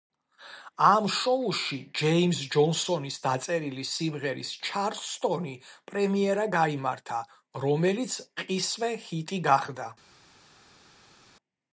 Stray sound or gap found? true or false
false